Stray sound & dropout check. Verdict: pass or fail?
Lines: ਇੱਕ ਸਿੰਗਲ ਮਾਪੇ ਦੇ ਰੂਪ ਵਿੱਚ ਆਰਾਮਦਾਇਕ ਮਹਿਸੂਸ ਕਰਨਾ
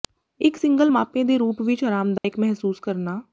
fail